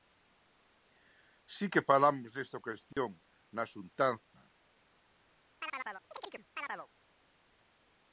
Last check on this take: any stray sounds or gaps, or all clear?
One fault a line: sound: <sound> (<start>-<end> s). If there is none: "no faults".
sound: dropout (2.9-3.0 s)
sound: chirp (5.6-6.9 s)